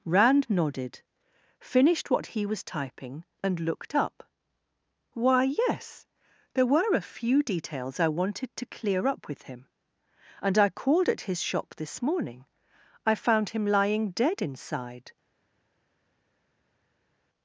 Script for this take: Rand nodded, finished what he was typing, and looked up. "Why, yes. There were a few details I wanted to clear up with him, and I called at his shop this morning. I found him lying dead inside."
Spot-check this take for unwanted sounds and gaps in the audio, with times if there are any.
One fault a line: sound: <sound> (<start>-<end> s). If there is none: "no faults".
no faults